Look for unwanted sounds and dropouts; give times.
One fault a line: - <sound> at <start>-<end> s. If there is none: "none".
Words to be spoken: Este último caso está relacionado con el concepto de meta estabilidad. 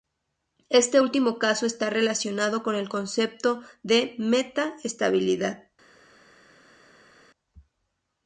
none